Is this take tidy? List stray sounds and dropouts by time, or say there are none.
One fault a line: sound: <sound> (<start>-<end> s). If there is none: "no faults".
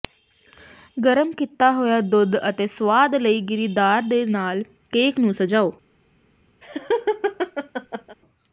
sound: laugh (6.6-8.2 s)